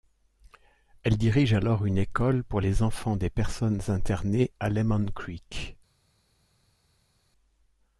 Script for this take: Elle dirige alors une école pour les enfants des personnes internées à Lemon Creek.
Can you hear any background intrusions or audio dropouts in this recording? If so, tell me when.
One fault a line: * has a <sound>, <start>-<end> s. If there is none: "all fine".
all fine